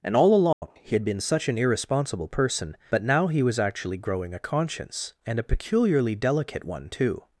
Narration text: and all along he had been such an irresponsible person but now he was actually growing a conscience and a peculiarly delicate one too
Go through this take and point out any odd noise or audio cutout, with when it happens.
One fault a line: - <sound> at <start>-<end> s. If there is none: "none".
- dropout at 0.5-0.6 s